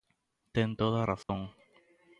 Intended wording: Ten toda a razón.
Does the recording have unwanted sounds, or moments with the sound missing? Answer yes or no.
yes